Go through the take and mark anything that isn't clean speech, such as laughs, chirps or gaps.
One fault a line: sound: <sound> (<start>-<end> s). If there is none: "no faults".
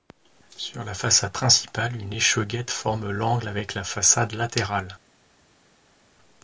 no faults